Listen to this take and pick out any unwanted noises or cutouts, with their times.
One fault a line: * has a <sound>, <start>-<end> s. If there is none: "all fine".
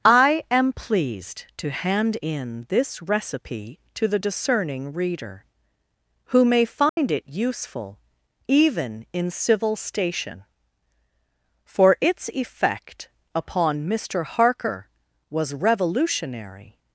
* has a dropout, 6.9-7.0 s